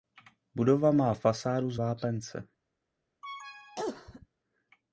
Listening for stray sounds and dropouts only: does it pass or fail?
fail